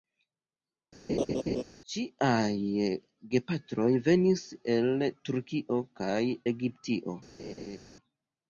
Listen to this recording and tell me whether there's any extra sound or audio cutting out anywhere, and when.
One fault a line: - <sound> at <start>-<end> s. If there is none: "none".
- laugh at 1.1-1.6 s
- laugh at 7.4-7.8 s